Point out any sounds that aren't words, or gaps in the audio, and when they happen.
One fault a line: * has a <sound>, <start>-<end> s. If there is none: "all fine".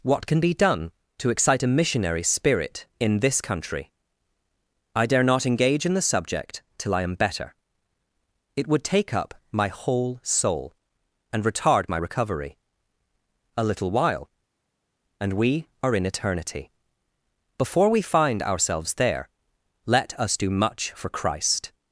all fine